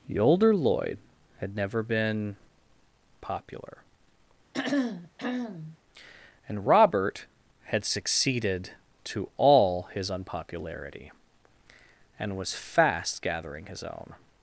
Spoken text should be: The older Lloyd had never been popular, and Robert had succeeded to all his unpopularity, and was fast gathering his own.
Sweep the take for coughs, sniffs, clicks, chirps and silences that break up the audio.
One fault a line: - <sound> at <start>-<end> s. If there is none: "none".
- throat clearing at 4.5-5.8 s